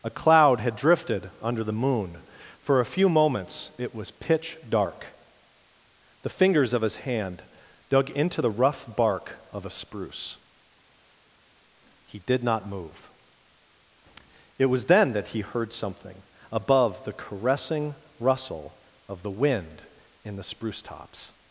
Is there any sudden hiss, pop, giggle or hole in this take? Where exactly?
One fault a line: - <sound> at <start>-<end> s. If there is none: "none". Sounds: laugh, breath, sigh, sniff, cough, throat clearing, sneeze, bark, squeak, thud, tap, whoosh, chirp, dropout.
none